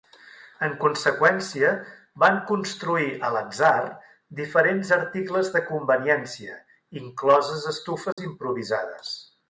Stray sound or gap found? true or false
true